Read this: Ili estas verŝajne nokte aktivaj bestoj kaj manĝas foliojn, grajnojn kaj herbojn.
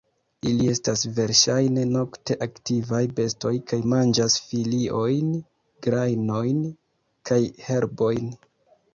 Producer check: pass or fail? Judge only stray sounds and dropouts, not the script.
pass